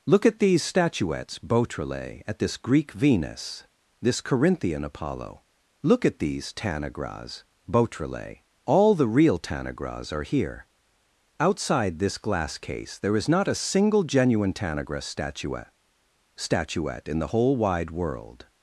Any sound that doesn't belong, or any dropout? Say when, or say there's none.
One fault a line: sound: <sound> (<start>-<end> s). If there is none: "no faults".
no faults